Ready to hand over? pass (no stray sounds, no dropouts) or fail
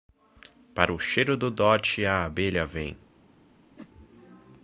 fail